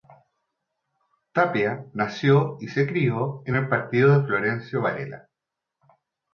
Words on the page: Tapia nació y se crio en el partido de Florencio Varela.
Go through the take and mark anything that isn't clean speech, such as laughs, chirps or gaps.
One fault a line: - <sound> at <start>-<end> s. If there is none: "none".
none